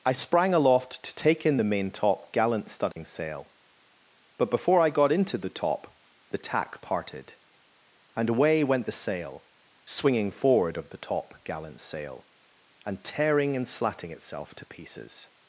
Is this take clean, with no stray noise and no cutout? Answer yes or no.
no